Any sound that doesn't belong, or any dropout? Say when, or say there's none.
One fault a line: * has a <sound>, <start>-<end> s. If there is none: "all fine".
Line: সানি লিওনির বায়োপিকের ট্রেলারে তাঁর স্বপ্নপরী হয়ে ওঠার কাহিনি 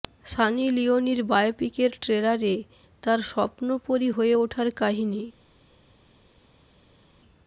all fine